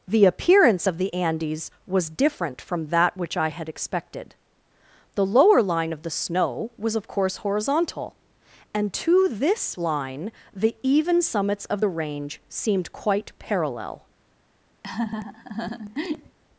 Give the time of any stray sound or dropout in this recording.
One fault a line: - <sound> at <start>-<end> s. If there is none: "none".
- laugh at 14.8-16.4 s